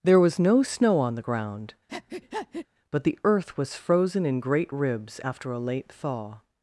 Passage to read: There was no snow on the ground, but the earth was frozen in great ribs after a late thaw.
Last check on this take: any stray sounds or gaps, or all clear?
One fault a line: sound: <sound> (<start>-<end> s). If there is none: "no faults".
sound: breath (1.9-2.7 s)